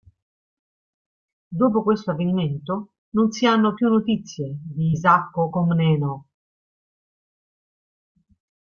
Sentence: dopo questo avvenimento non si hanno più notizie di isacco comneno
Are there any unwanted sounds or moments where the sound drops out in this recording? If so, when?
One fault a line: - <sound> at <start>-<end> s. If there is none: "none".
none